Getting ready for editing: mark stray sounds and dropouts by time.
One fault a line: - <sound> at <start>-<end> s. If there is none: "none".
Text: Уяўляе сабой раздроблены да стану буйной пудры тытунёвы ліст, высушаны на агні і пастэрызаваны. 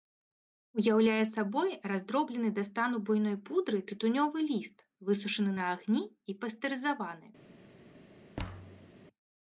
- thud at 8.4-8.9 s